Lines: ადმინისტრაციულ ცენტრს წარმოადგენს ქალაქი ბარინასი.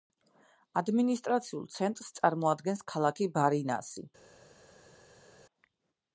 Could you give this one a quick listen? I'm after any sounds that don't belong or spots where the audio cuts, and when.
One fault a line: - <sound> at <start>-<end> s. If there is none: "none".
none